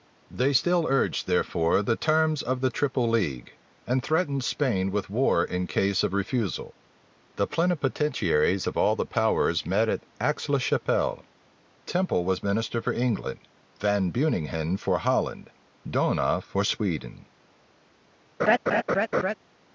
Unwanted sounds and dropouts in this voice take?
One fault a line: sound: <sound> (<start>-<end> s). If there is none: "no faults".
sound: laugh (18.4-19.3 s)